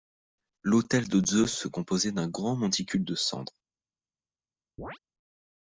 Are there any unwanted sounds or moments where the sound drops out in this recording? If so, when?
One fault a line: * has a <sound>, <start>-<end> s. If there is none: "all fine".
* has a chirp, 4.8-5.0 s